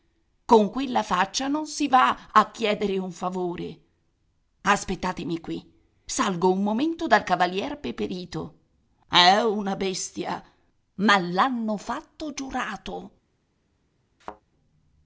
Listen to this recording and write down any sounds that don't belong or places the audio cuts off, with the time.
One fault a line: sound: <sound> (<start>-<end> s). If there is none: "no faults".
sound: thud (14.2-14.4 s)